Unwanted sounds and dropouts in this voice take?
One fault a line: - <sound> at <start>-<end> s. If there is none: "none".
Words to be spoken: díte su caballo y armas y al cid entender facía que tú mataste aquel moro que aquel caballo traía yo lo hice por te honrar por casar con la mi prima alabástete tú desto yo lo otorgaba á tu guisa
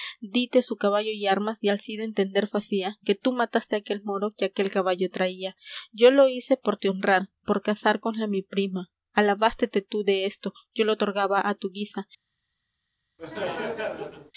- laugh at 13.2-14.3 s